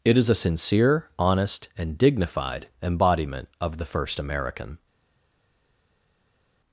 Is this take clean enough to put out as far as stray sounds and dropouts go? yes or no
yes